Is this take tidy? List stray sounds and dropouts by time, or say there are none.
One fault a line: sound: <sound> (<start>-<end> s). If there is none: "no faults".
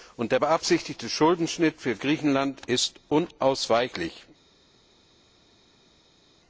no faults